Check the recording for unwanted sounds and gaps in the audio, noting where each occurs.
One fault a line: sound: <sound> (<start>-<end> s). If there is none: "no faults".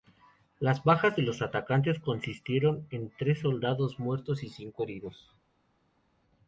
no faults